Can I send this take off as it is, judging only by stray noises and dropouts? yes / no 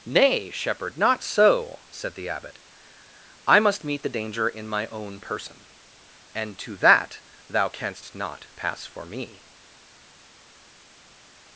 yes